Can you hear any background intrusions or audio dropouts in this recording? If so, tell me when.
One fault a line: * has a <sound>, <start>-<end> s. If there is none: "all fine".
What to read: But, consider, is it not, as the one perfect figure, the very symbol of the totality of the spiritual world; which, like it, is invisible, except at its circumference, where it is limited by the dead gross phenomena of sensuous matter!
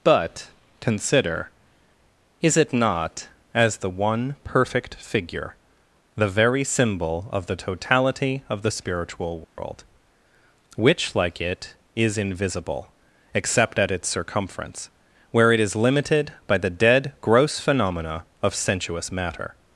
* has a dropout, 9.4-9.6 s